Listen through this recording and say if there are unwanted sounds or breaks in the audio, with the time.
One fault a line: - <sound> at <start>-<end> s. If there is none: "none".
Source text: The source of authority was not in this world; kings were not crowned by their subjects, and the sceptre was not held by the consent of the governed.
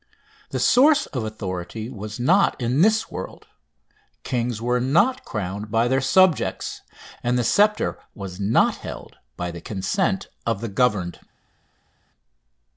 none